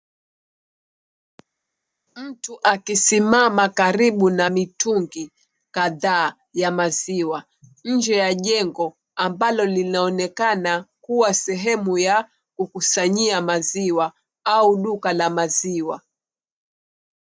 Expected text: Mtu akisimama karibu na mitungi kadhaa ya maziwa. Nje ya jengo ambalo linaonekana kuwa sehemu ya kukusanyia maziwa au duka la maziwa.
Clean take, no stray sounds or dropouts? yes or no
yes